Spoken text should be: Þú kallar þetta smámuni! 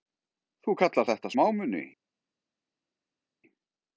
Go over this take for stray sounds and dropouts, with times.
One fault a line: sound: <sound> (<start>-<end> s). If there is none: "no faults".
no faults